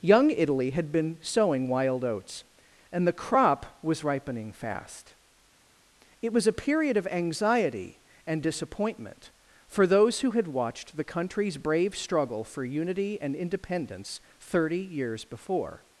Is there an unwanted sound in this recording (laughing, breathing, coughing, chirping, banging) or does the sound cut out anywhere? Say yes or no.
no